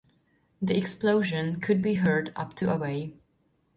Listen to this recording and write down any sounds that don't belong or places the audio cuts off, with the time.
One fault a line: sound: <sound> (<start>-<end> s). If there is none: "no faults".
no faults